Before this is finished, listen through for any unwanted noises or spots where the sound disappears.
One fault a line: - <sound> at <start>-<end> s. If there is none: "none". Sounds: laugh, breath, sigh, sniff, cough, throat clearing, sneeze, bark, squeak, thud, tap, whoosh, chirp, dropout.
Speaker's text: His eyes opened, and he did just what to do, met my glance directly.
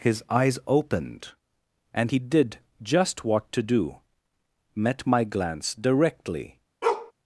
- bark at 6.8-7.1 s